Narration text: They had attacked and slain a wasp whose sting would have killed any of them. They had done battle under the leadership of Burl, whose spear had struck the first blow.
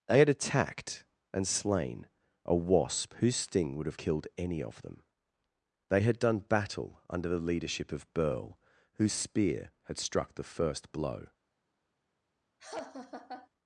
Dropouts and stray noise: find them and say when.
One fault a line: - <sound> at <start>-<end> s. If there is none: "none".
- laugh at 12.6-13.5 s